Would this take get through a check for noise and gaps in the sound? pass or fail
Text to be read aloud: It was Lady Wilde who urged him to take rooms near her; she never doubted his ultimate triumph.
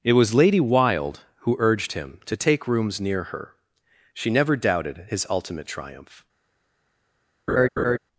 fail